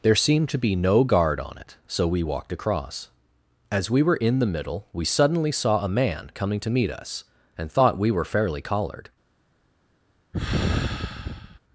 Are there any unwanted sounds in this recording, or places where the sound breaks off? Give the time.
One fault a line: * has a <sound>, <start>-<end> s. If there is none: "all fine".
* has a sigh, 10.3-11.6 s